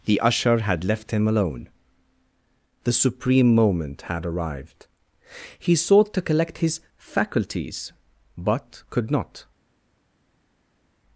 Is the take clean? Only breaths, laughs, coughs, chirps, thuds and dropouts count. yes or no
yes